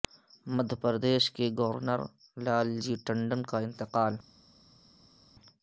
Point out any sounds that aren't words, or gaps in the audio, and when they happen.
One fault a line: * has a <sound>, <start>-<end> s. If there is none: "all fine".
all fine